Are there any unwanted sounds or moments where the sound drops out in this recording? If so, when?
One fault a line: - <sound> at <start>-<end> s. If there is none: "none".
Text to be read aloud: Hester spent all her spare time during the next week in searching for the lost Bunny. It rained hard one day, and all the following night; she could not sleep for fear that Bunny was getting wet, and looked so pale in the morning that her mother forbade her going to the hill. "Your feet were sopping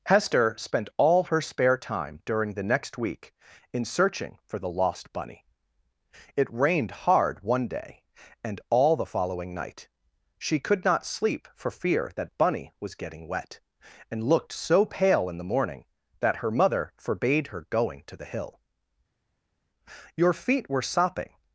none